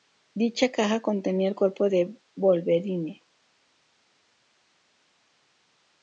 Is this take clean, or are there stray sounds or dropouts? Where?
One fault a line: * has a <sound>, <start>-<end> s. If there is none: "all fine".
all fine